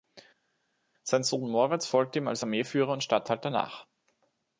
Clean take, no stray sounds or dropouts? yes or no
yes